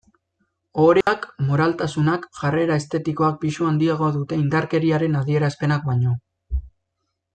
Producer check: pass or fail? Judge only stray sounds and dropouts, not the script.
fail